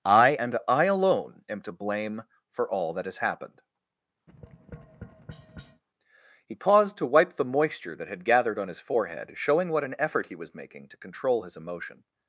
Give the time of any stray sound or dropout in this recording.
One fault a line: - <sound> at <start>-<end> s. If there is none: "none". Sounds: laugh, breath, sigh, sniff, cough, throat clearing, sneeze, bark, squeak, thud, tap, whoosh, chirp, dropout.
- tap at 4.3-5.8 s